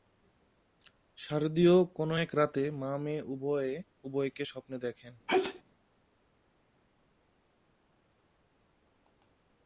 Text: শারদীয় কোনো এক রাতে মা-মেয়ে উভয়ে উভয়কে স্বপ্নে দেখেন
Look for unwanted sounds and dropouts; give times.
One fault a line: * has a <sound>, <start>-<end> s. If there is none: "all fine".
* has a sneeze, 5.3-5.6 s